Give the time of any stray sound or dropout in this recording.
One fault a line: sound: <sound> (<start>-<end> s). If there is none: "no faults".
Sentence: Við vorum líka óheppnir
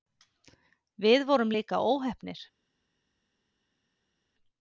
no faults